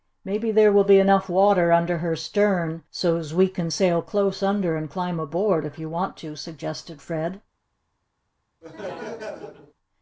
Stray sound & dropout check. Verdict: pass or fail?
fail